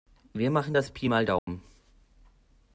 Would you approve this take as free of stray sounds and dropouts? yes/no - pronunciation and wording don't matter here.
no